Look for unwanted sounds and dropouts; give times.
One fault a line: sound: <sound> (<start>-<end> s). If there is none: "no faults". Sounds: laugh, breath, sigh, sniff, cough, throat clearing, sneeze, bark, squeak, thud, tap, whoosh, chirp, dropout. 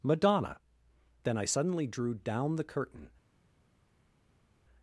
no faults